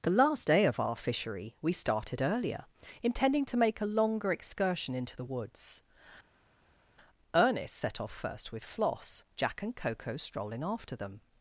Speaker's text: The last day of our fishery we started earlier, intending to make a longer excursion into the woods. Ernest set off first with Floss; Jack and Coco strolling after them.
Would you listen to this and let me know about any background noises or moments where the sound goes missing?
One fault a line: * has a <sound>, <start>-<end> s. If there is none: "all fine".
all fine